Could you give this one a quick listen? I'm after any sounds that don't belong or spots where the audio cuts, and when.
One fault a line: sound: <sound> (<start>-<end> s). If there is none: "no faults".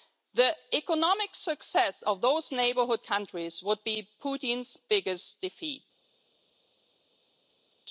no faults